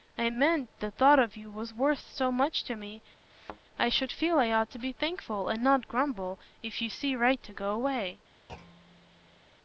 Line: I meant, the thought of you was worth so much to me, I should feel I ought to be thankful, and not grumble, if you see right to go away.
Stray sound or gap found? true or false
true